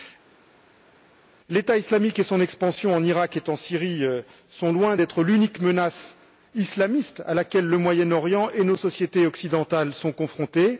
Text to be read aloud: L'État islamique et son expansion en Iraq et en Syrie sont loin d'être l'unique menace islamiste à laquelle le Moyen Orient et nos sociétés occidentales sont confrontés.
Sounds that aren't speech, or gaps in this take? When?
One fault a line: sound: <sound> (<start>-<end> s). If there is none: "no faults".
no faults